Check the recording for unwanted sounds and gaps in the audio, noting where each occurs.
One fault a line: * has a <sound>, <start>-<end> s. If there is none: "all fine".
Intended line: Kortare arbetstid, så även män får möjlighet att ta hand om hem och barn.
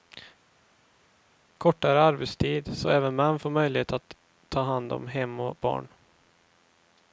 all fine